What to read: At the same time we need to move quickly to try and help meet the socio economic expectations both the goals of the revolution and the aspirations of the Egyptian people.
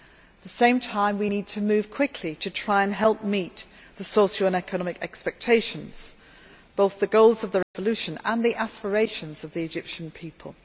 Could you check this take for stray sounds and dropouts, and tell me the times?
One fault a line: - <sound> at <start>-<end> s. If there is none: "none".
- dropout at 7.6-7.7 s